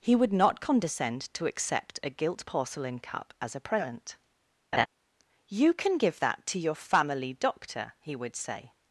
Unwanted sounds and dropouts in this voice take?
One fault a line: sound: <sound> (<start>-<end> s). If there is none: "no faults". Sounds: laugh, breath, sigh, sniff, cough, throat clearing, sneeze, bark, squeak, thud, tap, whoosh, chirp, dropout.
sound: laugh (4.7-4.9 s)